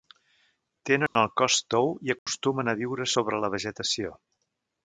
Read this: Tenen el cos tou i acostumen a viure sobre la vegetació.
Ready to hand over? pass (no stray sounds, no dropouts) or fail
fail